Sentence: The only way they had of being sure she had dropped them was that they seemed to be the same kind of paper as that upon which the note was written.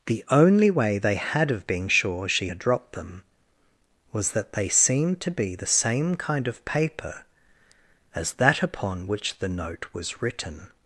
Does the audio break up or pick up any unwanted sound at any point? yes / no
no